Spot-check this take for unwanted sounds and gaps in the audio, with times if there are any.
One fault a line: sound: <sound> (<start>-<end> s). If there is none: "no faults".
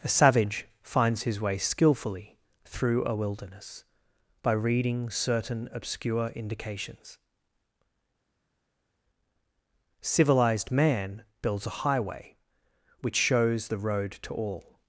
no faults